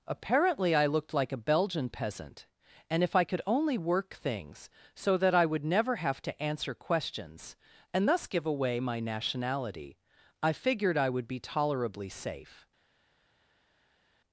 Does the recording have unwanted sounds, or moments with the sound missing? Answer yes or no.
no